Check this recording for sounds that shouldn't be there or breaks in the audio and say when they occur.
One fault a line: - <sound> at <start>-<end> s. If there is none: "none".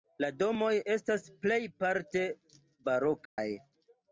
- dropout at 3.3-3.4 s